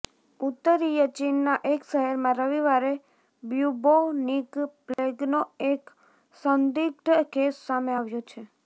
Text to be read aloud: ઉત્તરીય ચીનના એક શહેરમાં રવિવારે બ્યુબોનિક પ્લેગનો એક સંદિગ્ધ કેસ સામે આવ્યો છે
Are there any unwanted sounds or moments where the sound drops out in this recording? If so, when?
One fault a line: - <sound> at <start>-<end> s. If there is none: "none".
- dropout at 4.9-5.0 s